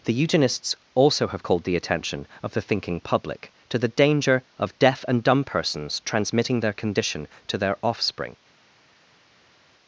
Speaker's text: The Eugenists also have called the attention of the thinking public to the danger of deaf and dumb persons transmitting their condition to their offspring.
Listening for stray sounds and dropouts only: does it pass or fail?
pass